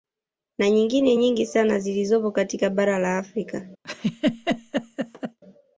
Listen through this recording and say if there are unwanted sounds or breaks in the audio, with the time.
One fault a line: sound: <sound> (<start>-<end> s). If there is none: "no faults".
sound: laugh (3.8-5.4 s)